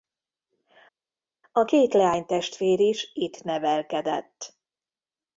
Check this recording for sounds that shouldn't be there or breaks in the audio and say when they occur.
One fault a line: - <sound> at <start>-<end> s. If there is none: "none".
none